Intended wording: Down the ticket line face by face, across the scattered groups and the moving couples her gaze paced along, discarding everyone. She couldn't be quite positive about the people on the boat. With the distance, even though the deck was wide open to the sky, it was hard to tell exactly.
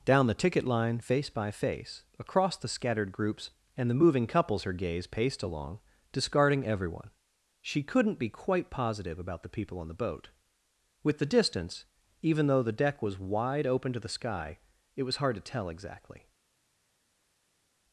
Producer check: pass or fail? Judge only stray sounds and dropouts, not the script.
pass